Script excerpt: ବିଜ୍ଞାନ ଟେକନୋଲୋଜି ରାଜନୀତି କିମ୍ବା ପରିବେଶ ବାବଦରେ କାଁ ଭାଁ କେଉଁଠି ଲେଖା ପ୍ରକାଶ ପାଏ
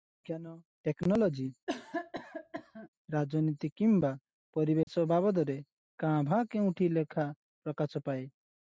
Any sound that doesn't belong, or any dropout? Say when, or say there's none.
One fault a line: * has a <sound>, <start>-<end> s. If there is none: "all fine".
* has a cough, 1.7-2.9 s
* has a dropout, 4.8-4.9 s